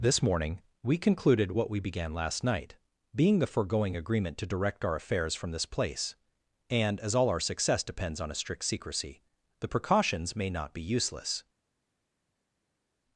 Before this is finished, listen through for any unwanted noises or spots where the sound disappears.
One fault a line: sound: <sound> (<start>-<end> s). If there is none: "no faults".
no faults